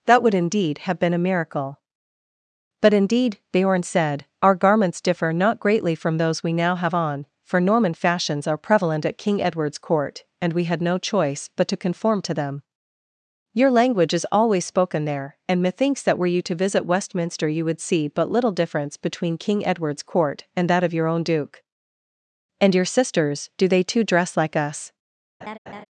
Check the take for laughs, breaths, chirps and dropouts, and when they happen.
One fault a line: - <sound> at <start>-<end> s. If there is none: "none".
- laugh at 25.4-25.8 s